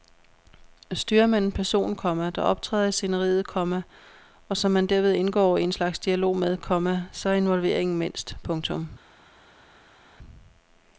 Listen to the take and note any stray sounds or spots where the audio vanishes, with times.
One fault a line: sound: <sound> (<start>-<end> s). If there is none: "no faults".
no faults